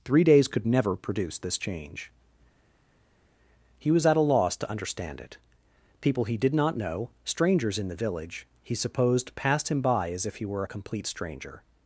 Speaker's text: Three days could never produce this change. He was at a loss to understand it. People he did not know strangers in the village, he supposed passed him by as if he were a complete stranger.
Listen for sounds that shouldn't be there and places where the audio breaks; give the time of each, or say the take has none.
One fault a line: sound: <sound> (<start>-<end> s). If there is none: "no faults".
no faults